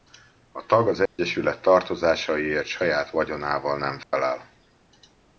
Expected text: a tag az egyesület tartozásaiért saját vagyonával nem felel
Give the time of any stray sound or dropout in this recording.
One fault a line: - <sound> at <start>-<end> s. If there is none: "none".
- dropout at 1.1-1.2 s
- dropout at 4.0-4.1 s